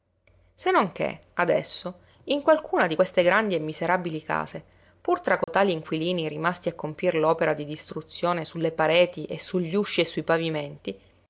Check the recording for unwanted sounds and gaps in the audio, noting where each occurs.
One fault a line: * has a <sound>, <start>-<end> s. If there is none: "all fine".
* has a dropout, 5.4-5.5 s